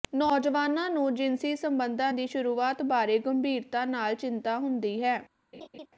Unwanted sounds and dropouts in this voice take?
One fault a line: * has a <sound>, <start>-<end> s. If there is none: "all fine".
* has a laugh, 5.5-5.9 s